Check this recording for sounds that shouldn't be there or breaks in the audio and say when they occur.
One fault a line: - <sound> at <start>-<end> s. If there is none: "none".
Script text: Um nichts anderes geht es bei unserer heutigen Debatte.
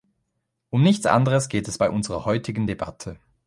none